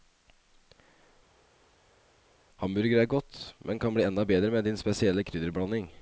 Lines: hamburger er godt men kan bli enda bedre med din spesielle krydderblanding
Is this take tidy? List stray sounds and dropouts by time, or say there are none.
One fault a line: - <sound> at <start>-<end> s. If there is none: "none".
none